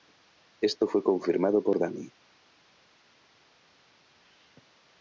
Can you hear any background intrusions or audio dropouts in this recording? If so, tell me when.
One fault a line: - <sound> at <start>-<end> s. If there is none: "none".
none